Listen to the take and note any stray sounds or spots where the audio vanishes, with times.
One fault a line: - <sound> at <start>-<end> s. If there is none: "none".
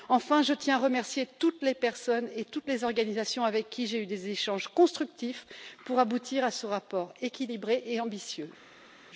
none